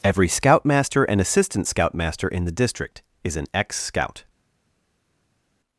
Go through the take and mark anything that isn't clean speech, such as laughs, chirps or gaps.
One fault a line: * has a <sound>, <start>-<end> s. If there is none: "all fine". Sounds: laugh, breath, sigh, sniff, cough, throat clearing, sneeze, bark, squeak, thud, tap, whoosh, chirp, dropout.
all fine